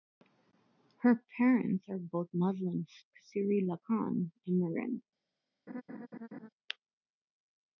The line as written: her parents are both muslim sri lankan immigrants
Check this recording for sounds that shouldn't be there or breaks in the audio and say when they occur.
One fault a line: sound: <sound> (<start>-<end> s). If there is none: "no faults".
sound: laugh (5.7-6.5 s)